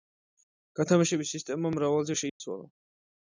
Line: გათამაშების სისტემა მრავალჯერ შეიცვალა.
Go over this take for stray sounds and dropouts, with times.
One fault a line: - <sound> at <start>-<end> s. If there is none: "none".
- dropout at 2.3-2.4 s